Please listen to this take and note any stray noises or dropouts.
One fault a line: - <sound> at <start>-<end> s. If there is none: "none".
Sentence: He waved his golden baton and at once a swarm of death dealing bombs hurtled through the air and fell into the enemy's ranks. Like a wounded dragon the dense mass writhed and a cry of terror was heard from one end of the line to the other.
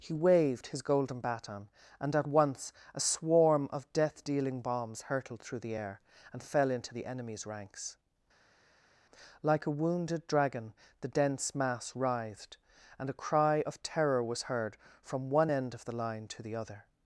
none